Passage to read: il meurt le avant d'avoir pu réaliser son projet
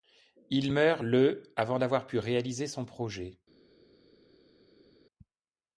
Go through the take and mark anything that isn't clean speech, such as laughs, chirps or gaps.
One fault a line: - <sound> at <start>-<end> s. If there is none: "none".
none